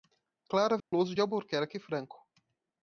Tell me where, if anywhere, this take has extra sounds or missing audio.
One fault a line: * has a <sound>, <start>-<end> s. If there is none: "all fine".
* has a dropout, 0.8-0.9 s